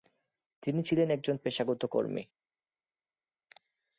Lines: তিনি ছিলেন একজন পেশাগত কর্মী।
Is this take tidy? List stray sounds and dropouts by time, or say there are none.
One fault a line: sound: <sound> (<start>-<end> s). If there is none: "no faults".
no faults